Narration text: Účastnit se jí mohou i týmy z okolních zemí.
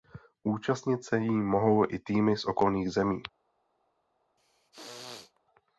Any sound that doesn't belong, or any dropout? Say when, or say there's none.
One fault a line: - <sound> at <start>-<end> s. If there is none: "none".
- throat clearing at 4.4-5.4 s